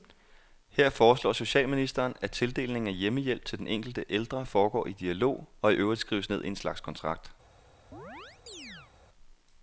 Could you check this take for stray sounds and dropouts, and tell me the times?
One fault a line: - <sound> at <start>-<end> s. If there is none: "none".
- chirp at 7.9-8.9 s